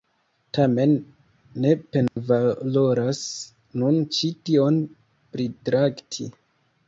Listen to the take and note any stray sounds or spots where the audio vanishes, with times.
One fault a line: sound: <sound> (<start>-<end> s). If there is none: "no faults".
sound: dropout (2.1-2.2 s)